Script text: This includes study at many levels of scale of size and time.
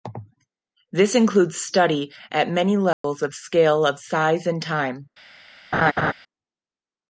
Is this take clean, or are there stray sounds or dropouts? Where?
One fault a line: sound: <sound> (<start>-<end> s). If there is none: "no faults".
sound: dropout (2.9-3.0 s)
sound: laugh (5.7-6.1 s)